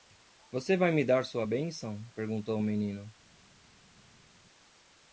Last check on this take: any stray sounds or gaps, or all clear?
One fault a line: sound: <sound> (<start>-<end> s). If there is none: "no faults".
no faults